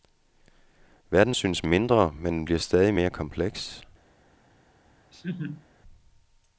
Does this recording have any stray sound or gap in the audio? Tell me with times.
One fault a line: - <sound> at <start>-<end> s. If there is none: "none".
- laugh at 5.1-5.7 s